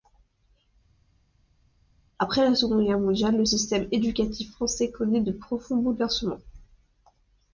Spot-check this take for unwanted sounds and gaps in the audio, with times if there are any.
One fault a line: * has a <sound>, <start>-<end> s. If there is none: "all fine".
all fine